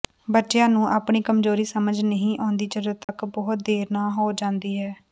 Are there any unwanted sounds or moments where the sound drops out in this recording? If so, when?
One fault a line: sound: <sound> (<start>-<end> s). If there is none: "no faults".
sound: dropout (3.0-3.1 s)